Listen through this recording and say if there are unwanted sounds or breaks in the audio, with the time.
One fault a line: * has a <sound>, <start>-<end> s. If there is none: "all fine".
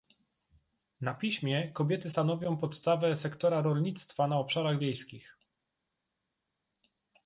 all fine